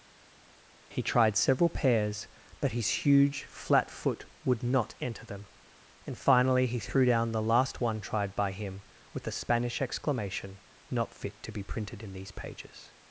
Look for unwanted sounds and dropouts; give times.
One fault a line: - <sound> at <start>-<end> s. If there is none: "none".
none